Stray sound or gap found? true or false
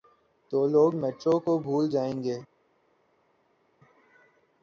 false